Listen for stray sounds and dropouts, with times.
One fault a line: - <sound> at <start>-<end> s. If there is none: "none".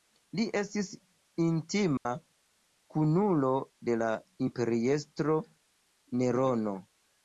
- dropout at 2.0-2.1 s